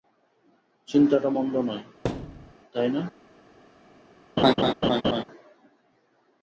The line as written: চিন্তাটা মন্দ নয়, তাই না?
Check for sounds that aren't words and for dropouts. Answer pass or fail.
fail